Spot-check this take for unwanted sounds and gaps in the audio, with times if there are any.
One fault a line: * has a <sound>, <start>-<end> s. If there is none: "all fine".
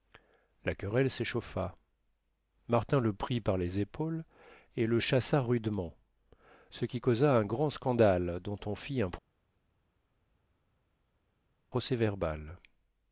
all fine